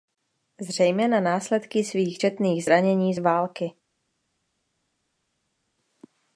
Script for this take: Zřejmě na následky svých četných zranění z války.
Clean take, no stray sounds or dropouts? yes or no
yes